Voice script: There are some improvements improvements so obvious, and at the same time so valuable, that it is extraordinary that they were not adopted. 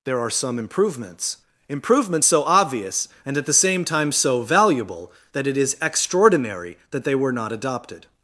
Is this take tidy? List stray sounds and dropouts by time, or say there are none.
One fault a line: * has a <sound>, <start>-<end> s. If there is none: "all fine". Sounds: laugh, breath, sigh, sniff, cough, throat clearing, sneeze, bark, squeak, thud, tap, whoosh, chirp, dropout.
all fine